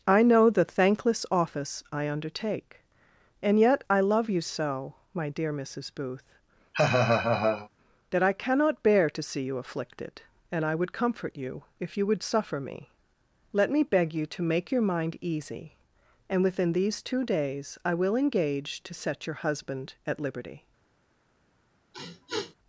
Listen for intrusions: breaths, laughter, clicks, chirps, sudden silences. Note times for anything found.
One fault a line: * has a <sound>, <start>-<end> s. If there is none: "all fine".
* has a laugh, 6.7-7.7 s
* has a sniff, 21.9-22.6 s